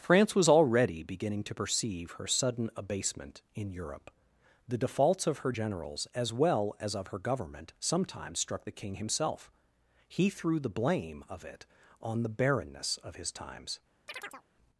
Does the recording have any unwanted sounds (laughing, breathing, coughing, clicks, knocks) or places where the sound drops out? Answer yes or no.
yes